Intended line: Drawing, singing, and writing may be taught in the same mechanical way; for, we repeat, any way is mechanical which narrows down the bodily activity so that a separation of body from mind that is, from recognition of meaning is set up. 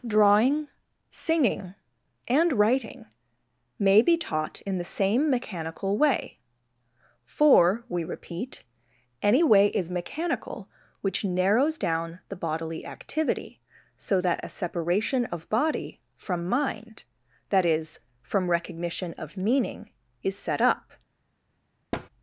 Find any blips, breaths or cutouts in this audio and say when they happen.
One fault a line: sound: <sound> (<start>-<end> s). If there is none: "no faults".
sound: thud (21.9-22.1 s)